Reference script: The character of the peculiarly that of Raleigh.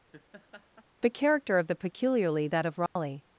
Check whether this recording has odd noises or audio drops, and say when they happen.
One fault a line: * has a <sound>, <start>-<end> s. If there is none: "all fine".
* has a laugh, 0.1-0.9 s
* has a dropout, 2.9-3.0 s